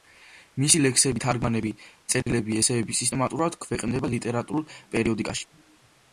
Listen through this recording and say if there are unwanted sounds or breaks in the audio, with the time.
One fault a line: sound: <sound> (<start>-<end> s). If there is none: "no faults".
sound: dropout (2.2-2.3 s)